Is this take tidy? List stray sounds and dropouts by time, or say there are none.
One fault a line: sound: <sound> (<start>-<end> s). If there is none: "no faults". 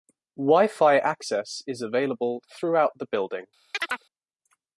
sound: chirp (3.7-4.1 s)